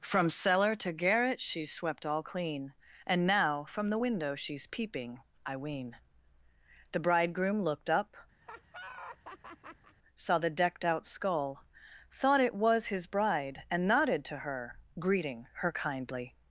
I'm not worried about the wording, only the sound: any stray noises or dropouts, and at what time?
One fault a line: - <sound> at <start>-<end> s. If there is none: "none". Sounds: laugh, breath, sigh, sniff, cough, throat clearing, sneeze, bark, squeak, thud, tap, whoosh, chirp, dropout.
- laugh at 8.4-10.0 s